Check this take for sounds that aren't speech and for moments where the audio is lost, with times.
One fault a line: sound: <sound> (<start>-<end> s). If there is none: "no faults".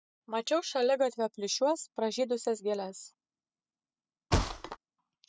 sound: thud (4.3-4.8 s)